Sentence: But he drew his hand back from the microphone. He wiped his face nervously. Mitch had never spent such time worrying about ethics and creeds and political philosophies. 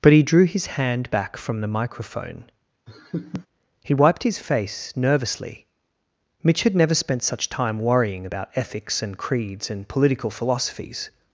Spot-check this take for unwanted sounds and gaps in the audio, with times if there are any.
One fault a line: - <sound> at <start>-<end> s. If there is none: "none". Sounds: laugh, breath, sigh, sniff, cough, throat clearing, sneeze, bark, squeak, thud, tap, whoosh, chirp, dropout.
- laugh at 2.9-3.5 s